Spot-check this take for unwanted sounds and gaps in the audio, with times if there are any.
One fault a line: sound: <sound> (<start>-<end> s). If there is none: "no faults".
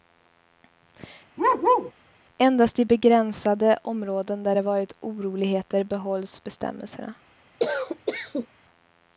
sound: bark (1.4-1.9 s)
sound: cough (7.6-8.5 s)